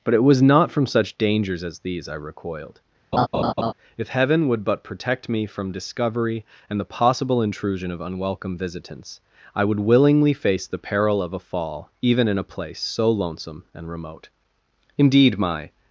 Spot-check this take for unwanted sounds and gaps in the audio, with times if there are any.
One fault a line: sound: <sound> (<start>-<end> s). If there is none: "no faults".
sound: laugh (3.1-3.7 s)